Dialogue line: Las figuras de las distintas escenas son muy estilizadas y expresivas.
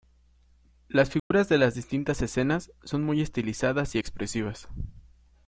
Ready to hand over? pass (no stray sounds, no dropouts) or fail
fail